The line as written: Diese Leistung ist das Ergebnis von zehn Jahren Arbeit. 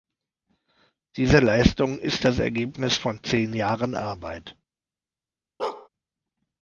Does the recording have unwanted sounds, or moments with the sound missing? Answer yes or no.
yes